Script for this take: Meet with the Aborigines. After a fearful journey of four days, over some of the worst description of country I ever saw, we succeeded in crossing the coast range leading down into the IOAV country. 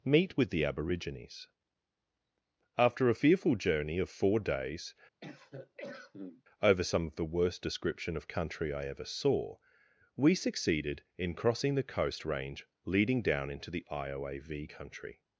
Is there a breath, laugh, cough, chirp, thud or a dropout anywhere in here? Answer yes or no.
yes